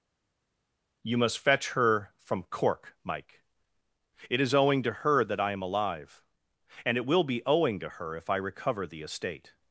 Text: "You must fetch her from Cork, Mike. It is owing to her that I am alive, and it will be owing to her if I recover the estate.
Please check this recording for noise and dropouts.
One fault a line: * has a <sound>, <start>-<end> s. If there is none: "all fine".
all fine